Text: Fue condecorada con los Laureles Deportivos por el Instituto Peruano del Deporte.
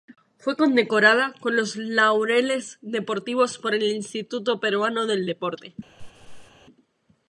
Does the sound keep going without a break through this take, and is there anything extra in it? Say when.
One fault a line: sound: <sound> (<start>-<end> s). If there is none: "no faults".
sound: laugh (6.0-6.5 s)